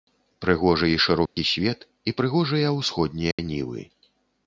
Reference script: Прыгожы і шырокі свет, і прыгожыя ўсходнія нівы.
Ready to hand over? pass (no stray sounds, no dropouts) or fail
fail